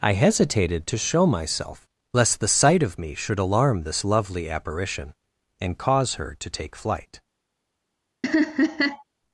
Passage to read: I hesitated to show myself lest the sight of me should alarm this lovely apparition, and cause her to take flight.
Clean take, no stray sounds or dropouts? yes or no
no